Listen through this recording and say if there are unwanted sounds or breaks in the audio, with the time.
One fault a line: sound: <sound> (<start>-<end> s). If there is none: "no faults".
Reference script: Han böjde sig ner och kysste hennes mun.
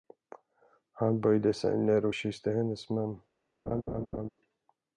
sound: laugh (3.7-4.3 s)